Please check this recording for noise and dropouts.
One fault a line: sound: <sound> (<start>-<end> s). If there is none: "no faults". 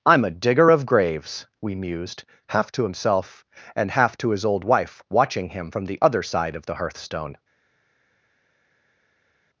no faults